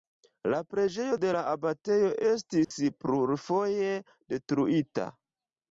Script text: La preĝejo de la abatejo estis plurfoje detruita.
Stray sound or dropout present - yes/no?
yes